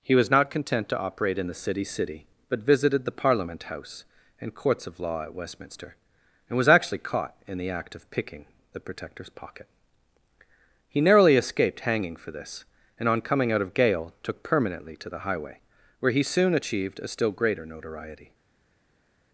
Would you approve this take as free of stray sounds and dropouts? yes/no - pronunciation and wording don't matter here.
yes